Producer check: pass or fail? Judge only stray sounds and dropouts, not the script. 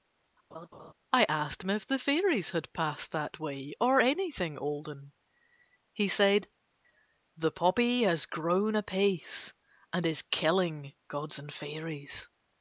fail